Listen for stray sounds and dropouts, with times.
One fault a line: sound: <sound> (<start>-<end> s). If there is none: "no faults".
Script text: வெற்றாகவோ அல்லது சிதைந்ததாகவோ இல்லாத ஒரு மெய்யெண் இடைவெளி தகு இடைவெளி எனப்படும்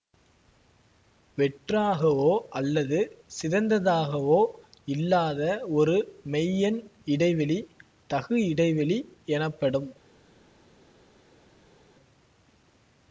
no faults